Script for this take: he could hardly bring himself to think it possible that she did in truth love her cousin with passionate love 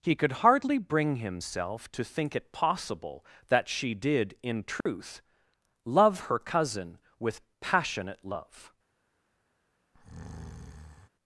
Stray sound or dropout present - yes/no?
yes